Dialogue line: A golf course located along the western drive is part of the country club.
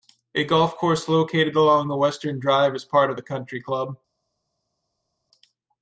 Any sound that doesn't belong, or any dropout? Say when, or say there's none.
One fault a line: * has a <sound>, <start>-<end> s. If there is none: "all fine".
all fine